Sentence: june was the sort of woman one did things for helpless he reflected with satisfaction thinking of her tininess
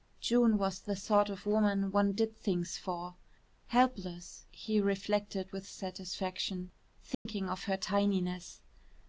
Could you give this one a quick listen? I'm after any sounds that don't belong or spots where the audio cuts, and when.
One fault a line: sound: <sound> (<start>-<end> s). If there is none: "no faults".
sound: dropout (7.1-7.3 s)